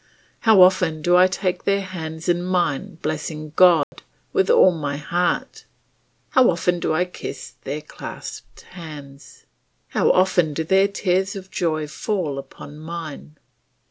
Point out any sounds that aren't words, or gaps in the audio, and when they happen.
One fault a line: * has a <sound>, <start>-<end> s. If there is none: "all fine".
* has a dropout, 3.8-3.9 s